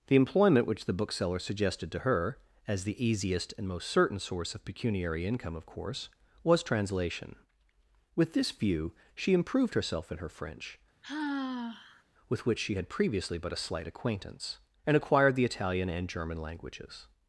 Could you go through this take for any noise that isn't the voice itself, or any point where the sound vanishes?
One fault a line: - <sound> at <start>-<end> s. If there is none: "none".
- sigh at 11.0-12.0 s